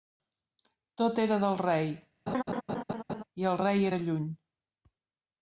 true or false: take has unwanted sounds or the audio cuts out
true